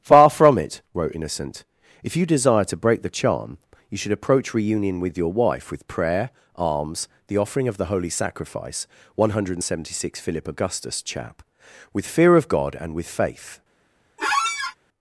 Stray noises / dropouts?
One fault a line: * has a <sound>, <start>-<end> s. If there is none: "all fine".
* has a squeak, 14.2-14.8 s